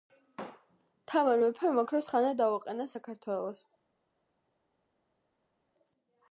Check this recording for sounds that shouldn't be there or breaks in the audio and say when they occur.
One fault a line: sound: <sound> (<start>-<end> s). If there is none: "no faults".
no faults